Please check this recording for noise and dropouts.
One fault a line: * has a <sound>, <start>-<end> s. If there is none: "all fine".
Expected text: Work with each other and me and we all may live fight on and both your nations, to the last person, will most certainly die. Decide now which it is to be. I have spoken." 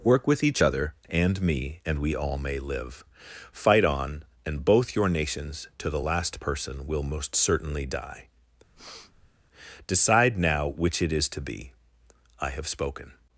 * has a breath, 8.7-9.3 s